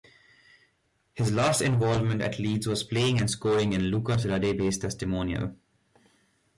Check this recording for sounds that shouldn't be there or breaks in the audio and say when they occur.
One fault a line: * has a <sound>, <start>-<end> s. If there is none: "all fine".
all fine